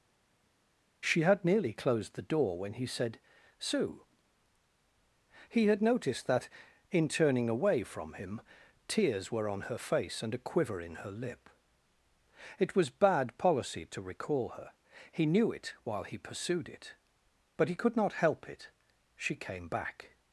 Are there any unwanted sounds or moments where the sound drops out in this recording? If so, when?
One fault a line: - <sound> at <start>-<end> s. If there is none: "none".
none